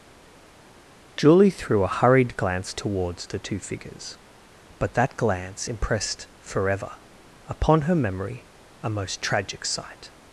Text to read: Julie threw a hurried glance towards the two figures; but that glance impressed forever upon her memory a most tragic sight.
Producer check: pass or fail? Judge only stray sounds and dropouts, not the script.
pass